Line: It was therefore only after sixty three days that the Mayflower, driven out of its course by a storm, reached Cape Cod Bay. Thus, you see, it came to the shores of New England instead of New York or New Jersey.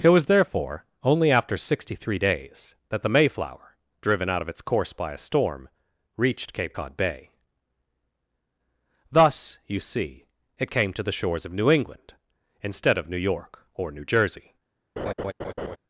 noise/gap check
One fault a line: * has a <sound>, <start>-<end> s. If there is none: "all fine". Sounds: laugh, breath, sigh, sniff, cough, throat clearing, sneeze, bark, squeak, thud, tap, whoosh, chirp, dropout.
* has a laugh, 15.0-15.8 s